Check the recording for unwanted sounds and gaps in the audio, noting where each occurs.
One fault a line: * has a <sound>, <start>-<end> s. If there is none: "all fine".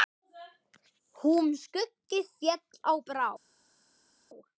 all fine